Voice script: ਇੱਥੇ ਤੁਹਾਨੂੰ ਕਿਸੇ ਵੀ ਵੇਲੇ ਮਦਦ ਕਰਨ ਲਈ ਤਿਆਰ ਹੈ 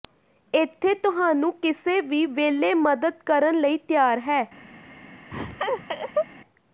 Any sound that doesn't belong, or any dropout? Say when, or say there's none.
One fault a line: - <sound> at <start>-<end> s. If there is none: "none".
- laugh at 5.3-6.3 s